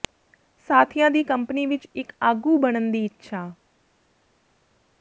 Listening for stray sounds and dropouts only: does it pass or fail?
pass